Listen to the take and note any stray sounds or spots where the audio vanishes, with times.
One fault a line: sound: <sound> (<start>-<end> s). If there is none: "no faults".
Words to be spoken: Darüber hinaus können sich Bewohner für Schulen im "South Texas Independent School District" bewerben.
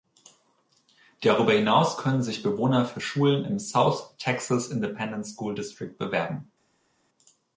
no faults